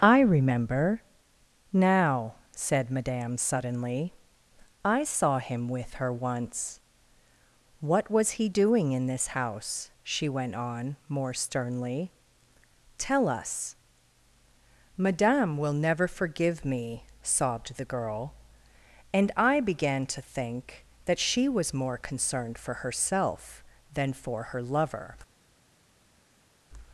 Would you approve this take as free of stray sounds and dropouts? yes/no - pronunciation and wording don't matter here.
yes